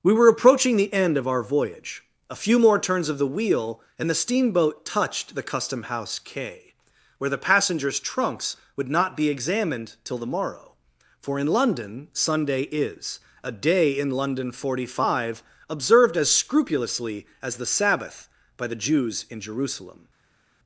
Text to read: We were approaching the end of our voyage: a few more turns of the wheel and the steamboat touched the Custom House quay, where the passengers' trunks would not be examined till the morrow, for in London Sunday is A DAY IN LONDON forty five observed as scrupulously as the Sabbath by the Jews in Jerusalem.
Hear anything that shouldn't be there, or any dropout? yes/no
no